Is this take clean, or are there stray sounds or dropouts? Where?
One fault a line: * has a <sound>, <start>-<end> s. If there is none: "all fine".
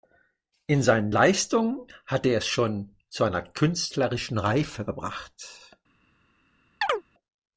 * has a chirp, 6.8-7.0 s